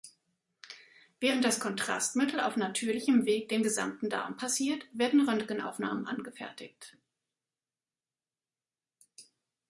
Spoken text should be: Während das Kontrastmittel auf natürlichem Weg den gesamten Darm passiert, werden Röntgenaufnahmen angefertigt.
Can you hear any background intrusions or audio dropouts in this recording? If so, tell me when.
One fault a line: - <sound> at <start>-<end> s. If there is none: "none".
none